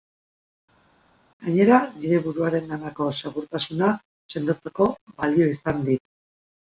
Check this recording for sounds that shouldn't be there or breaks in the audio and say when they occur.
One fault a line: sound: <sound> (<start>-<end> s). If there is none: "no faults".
no faults